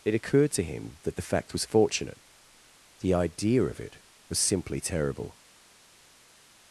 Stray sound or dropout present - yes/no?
no